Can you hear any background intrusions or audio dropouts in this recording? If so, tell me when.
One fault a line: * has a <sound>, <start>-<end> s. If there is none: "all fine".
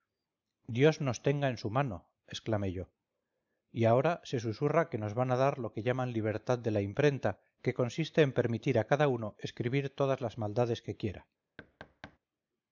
* has a thud, 11.6-12.2 s